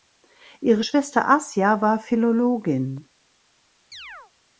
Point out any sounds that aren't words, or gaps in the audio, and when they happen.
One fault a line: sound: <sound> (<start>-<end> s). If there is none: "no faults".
sound: chirp (3.9-4.3 s)